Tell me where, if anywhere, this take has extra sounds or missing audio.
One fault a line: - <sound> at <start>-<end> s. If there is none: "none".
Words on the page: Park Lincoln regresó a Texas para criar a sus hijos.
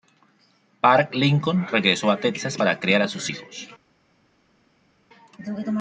none